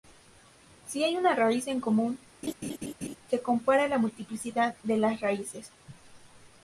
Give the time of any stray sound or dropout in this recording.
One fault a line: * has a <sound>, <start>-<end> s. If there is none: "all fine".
* has a laugh, 2.4-3.2 s